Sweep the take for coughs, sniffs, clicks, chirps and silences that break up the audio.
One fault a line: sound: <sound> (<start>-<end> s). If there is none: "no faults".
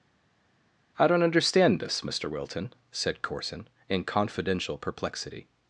no faults